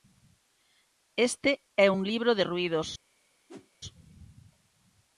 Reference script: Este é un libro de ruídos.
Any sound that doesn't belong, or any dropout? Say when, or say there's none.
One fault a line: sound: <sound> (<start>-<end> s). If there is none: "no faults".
sound: whoosh (3.5-3.7 s)